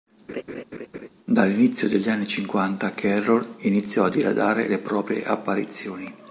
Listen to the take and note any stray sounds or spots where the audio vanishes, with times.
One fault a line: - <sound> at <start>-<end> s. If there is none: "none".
- laugh at 0.3-1.1 s